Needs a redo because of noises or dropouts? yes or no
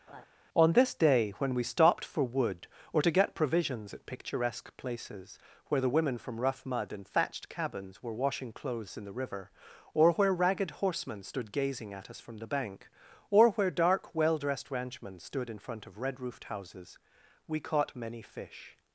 yes